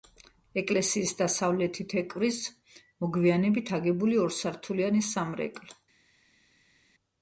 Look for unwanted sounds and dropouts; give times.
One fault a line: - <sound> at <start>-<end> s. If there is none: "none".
none